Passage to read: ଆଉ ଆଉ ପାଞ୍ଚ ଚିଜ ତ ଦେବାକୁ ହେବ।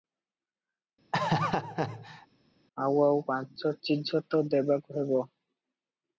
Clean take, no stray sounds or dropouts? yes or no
no